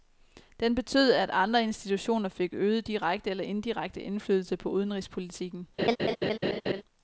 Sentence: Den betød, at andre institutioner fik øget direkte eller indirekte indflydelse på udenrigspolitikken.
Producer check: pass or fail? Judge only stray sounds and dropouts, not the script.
fail